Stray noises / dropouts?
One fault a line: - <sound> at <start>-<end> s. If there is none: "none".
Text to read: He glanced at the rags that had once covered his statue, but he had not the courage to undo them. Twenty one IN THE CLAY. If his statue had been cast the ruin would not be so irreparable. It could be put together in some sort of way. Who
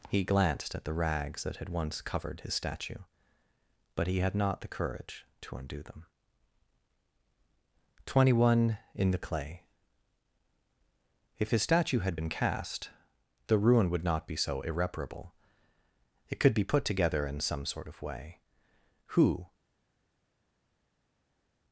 none